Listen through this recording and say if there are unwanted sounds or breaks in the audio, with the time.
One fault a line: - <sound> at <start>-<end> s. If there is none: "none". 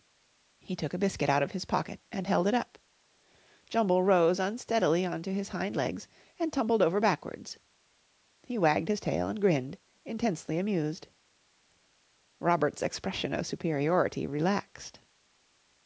none